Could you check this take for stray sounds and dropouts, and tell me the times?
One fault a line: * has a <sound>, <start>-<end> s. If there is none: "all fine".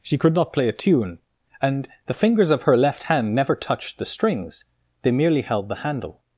all fine